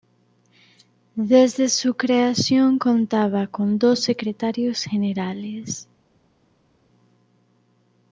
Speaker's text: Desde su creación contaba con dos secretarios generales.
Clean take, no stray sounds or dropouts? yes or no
yes